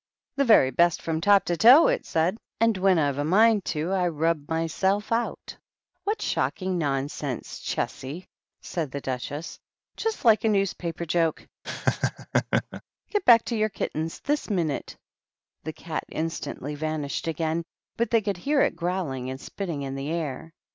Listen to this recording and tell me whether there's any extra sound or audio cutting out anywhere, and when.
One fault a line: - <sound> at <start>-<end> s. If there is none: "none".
- laugh at 11.6-12.8 s